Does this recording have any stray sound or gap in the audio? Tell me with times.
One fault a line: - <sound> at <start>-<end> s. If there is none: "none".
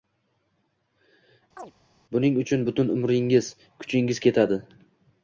- chirp at 1.6-1.7 s